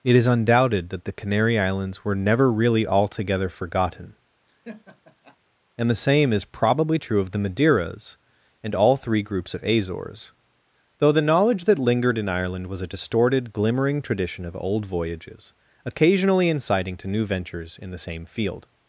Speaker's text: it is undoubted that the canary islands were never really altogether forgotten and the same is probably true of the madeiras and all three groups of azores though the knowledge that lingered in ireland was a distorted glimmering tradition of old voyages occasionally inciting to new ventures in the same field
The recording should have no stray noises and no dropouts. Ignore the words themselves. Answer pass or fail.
fail